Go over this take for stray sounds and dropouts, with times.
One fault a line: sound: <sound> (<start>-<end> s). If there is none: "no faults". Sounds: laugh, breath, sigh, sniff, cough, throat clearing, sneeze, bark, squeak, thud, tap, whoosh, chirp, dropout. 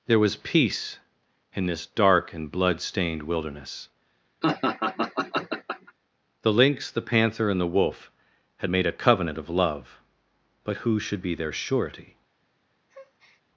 sound: laugh (4.4-5.9 s)
sound: breath (12.9-13.4 s)